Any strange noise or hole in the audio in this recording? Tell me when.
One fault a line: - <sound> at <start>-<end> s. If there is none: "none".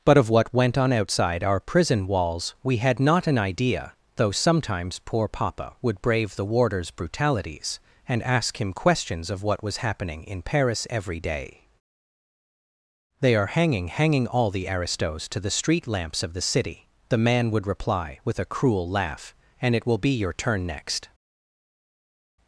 none